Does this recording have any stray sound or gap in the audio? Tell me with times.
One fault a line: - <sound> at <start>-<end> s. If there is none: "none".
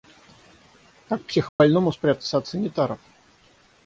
- dropout at 1.5-1.6 s